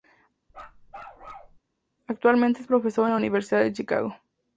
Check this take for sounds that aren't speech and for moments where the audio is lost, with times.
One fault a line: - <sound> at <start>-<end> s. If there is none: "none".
- bark at 0.5-1.6 s